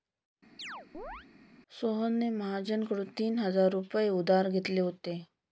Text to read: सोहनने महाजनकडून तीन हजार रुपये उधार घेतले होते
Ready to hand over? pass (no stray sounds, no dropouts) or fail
fail